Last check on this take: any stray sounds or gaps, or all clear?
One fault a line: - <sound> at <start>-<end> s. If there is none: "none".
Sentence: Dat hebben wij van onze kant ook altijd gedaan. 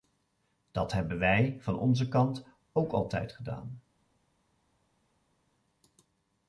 none